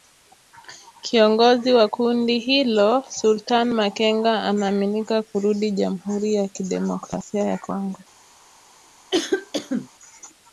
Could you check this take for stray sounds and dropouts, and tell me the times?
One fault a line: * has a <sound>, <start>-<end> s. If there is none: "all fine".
* has a cough, 9.1-9.9 s